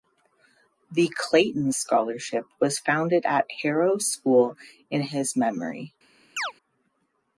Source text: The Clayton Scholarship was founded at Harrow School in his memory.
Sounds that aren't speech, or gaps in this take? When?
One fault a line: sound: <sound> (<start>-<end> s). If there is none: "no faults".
sound: chirp (6.4-6.5 s)